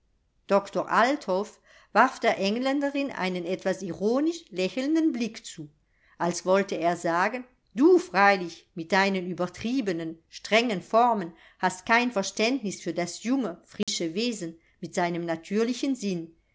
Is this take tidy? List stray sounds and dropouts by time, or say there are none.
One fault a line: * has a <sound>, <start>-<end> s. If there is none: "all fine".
* has a dropout, 13.8-13.9 s